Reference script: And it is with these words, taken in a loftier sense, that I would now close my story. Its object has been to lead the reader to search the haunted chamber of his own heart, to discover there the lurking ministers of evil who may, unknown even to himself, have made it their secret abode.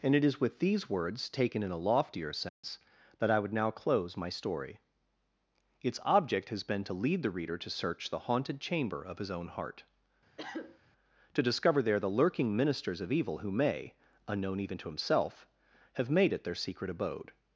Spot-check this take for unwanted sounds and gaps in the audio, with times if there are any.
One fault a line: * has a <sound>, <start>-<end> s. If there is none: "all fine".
* has a dropout, 2.5-2.6 s
* has a cough, 10.4-10.8 s